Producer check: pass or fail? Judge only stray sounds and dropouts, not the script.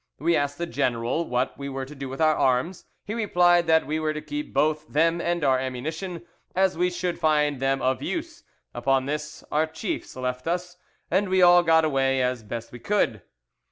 pass